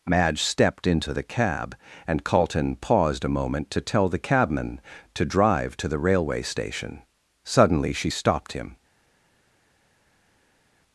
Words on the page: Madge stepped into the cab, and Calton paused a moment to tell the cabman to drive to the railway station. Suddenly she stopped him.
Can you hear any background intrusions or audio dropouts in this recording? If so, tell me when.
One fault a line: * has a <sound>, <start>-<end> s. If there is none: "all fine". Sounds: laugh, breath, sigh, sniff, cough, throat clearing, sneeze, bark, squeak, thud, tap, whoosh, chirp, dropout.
all fine